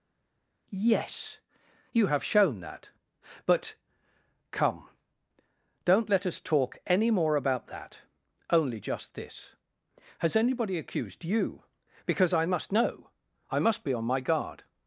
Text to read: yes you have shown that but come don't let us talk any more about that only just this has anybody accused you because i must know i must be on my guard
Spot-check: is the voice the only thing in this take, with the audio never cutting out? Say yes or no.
yes